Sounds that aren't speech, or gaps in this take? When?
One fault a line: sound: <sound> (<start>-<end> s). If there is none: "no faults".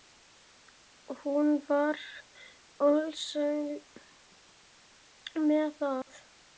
sound: dropout (6.0-6.1 s)